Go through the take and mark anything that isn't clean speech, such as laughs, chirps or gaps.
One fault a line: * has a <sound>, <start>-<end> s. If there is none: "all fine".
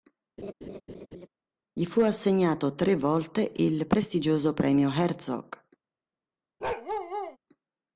* has a laugh, 0.4-1.3 s
* has a bark, 6.6-7.4 s